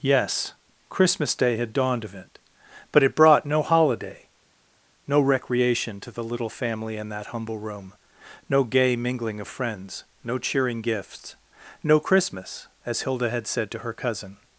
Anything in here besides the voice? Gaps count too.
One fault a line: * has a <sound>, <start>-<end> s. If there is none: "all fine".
all fine